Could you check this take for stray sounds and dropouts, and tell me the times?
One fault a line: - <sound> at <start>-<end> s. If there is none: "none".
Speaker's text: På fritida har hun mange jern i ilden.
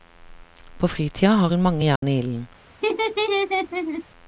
- dropout at 2.0-2.0 s
- laugh at 2.8-4.0 s